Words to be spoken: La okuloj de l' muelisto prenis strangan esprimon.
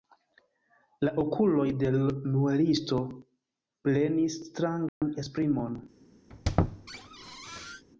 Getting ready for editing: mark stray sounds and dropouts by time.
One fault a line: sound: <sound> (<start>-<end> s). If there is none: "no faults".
sound: dropout (4.9-5.0 s)
sound: squeak (6.3-7.8 s)